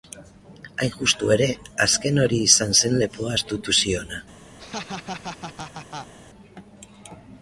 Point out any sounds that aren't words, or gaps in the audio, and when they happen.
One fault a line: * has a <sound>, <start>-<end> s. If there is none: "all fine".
* has a laugh, 4.6-6.1 s